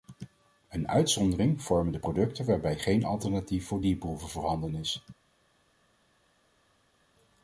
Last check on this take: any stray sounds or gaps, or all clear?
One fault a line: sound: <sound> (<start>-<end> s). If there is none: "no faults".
no faults